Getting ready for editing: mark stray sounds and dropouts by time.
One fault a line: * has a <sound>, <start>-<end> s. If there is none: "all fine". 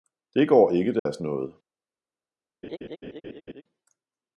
* has a dropout, 1.0-1.1 s
* has a laugh, 2.6-3.6 s